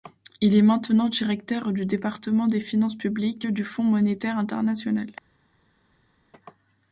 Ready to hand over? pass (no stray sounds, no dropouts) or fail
pass